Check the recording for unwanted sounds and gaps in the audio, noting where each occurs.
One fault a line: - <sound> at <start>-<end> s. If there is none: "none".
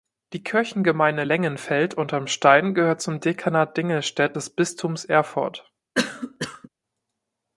- cough at 5.9-6.7 s